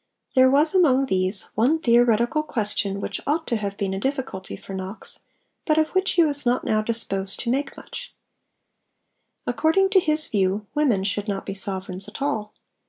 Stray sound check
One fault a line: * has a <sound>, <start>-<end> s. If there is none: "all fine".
all fine